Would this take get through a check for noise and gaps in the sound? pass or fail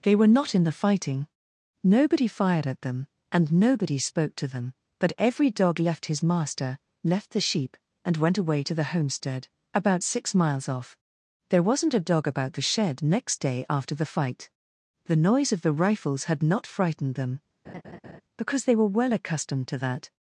fail